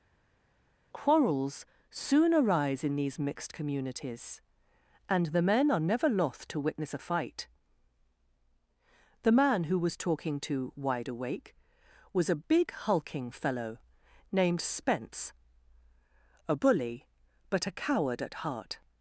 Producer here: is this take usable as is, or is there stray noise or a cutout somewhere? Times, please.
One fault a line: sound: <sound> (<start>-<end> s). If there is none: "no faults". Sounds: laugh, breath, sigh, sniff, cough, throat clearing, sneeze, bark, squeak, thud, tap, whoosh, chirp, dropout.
no faults